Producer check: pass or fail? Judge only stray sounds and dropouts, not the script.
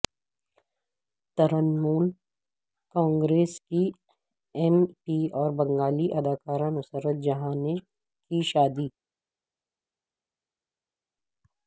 pass